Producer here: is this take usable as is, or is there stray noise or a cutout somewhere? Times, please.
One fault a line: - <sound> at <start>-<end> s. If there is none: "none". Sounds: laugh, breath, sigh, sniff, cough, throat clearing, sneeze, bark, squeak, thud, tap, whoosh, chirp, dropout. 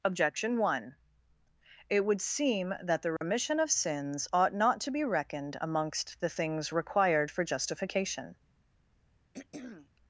- dropout at 3.2-3.2 s
- throat clearing at 9.3-9.9 s